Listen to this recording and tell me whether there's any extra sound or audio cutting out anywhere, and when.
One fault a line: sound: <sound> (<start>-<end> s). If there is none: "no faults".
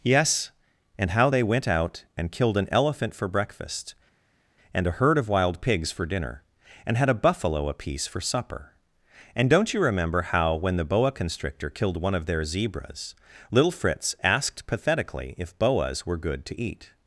no faults